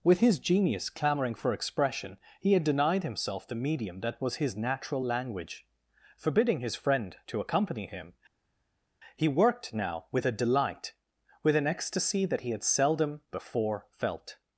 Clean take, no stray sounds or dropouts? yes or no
yes